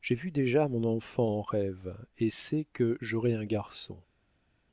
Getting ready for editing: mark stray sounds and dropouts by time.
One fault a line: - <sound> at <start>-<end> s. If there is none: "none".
none